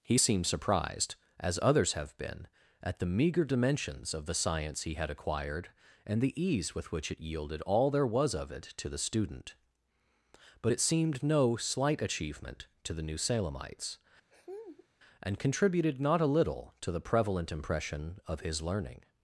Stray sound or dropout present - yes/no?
yes